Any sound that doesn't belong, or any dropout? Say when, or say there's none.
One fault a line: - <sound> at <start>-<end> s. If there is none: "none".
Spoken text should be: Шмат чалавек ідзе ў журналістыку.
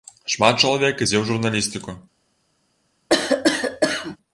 - cough at 3.1-4.2 s